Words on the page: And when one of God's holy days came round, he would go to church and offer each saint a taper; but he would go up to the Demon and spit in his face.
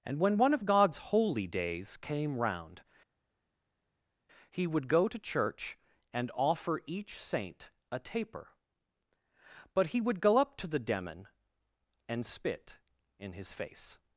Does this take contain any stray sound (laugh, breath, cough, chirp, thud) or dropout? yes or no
no